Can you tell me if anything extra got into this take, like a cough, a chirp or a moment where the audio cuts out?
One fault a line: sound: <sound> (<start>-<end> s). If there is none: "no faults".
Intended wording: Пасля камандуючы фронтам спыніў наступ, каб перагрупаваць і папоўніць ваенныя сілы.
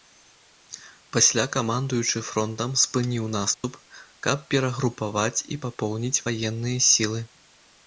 sound: dropout (3.5-3.6 s)